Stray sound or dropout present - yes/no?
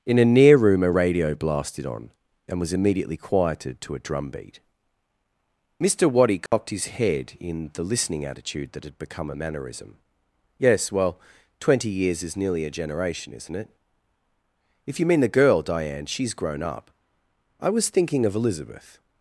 yes